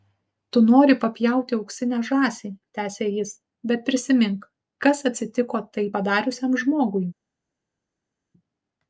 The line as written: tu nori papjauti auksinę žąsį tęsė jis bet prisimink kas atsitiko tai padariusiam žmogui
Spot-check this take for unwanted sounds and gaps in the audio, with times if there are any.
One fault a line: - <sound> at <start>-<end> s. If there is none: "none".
none